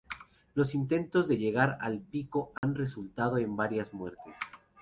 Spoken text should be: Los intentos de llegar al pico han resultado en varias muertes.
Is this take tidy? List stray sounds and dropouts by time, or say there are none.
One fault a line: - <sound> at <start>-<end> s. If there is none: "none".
- dropout at 2.6-2.6 s